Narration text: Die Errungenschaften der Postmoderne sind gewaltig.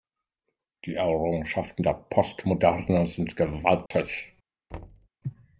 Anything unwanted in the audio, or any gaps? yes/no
yes